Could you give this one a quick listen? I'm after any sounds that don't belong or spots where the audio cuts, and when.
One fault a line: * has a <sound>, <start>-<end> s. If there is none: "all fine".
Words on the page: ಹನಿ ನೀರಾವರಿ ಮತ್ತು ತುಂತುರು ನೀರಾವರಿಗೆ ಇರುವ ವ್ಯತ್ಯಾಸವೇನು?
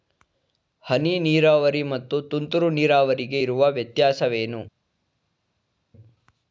all fine